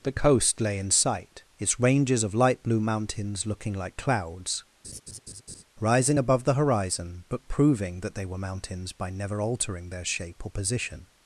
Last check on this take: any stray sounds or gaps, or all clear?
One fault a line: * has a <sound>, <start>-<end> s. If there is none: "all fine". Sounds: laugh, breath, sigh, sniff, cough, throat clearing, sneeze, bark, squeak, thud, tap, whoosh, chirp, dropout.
* has a laugh, 4.8-5.6 s